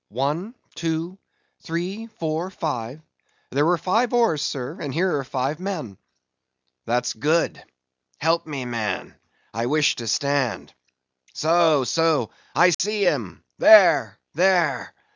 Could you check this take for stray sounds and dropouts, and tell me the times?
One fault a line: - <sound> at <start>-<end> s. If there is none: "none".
- dropout at 12.7-12.8 s